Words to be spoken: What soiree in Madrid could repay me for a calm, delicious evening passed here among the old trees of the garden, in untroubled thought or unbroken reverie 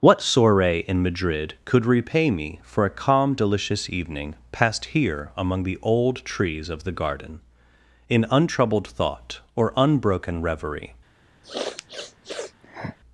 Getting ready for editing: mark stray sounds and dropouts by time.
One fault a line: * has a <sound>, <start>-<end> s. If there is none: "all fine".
* has a sniff, 11.4-13.0 s